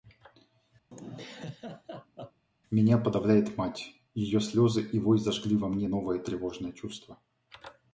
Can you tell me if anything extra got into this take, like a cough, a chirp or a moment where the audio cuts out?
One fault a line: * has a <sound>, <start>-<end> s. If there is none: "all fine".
* has a laugh, 0.9-2.5 s